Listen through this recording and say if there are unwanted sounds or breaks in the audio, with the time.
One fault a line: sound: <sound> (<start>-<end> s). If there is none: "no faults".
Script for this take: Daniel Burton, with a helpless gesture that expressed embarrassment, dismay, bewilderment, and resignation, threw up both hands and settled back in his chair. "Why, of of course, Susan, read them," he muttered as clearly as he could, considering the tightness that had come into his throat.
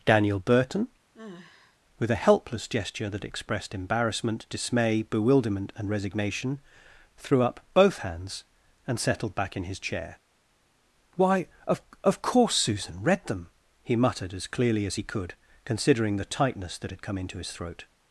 sound: sigh (1.1-1.8 s)